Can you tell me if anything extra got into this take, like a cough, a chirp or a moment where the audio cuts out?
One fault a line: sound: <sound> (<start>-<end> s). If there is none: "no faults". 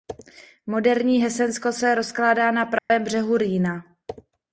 sound: dropout (2.8-2.9 s)